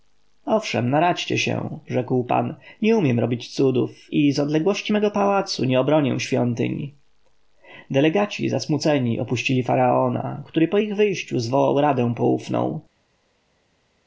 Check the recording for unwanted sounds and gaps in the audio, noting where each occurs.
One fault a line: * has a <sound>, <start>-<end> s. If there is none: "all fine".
all fine